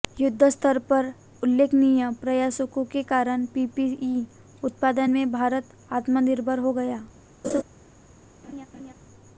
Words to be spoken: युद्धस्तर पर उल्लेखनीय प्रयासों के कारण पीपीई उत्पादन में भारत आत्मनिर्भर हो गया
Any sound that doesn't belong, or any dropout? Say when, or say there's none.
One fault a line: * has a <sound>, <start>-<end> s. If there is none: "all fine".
* has a laugh, 7.4-7.6 s
* has a laugh, 8.4-8.9 s